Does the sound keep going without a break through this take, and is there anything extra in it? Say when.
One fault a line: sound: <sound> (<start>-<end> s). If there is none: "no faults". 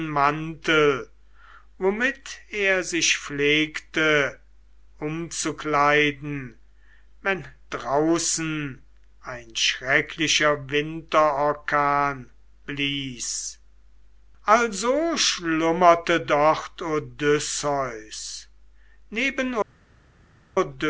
no faults